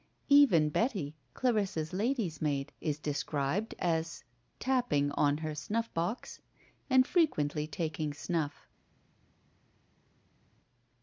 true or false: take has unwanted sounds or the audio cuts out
false